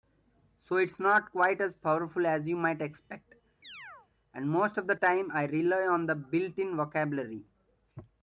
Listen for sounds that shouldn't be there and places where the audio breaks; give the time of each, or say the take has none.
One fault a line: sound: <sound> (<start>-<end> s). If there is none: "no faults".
sound: chirp (3.6-4.1 s)